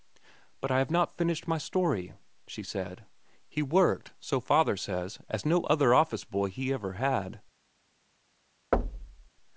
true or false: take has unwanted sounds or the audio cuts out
true